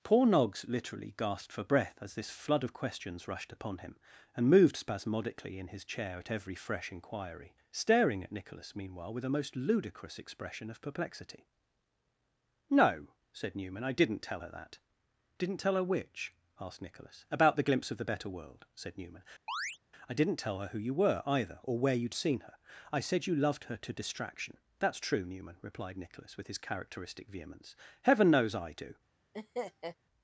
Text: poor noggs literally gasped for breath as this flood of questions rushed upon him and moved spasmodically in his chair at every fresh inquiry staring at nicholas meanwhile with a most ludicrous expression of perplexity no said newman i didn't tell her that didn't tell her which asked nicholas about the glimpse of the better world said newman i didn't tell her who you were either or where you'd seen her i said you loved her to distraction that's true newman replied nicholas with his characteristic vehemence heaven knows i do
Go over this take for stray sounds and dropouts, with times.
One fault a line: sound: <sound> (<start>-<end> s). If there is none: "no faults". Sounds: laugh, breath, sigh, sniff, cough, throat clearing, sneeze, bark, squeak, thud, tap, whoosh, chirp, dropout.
sound: chirp (19.5-19.8 s)
sound: laugh (29.3-30.0 s)